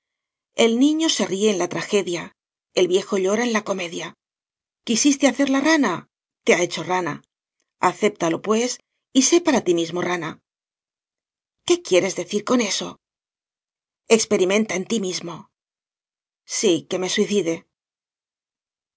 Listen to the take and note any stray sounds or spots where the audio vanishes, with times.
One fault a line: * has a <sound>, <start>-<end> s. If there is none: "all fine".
all fine